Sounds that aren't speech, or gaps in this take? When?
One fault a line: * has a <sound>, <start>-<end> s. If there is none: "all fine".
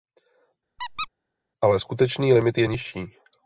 * has a squeak, 0.8-1.1 s